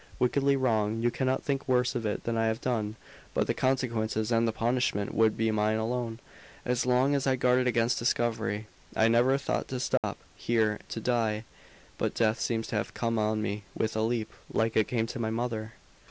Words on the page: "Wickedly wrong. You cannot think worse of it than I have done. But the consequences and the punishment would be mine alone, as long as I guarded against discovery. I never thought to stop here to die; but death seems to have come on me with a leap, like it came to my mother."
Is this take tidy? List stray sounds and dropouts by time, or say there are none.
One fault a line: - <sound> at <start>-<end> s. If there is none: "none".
- dropout at 10.0-10.0 s